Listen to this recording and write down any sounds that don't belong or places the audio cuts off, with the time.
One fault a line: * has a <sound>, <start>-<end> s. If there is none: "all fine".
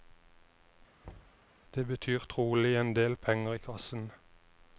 * has a thud, 1.0-1.5 s